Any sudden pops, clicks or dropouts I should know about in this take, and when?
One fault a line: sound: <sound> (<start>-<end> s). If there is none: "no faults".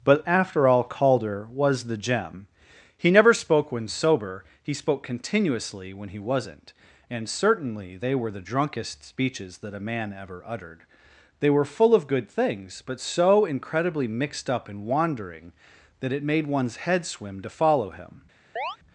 sound: chirp (18.6-18.8 s)